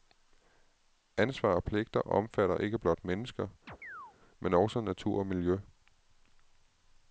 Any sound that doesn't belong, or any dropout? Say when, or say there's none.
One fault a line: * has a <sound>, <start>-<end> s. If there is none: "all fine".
* has a chirp, 3.7-4.2 s